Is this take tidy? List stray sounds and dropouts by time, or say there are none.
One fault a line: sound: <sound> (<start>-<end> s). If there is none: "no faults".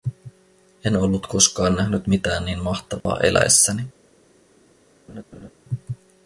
sound: dropout (3.0-3.1 s)
sound: laugh (5.1-5.5 s)